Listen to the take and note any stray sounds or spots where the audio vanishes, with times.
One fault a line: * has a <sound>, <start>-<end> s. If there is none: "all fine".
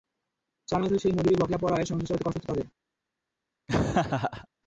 * has a laugh, 3.7-4.5 s